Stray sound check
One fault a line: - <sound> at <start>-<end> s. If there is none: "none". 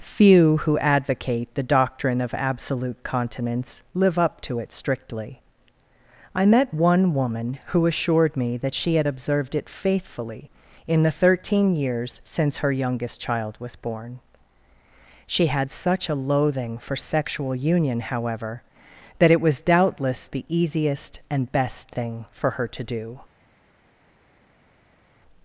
none